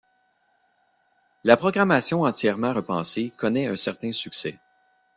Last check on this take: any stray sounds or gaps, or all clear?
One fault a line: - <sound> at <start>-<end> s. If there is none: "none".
none